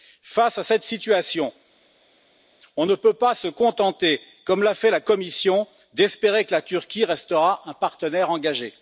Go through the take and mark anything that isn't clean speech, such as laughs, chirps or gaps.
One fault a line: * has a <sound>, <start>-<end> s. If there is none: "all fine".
all fine